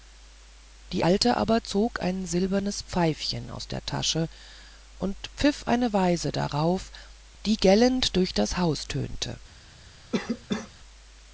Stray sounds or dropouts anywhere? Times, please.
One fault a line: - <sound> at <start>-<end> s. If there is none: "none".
- cough at 10.1-10.7 s